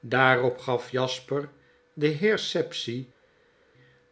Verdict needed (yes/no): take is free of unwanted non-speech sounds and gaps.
yes